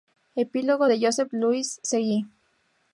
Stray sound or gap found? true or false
false